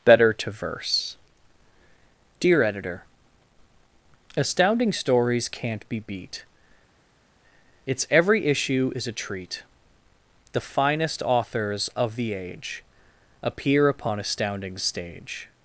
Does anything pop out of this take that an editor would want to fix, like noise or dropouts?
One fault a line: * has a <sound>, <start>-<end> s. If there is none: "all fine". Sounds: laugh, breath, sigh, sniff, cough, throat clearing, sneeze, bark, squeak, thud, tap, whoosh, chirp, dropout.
all fine